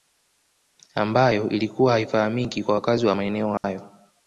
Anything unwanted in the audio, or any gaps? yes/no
yes